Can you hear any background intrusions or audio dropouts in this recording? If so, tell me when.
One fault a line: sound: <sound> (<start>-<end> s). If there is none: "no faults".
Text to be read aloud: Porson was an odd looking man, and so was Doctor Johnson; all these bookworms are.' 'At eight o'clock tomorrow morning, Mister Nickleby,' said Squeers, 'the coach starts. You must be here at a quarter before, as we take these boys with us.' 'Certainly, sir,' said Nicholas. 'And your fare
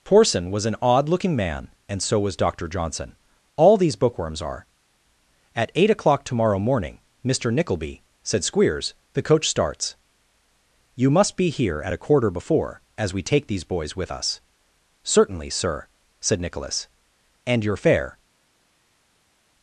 no faults